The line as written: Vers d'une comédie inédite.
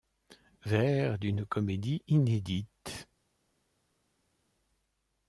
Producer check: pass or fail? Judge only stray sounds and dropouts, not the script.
pass